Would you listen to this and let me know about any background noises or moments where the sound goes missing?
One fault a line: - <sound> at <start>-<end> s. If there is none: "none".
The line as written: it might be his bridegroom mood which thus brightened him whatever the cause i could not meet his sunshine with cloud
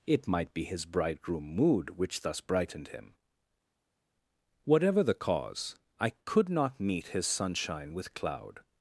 none